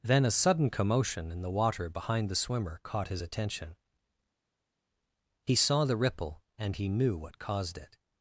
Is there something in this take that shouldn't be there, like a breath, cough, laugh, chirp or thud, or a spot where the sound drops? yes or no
no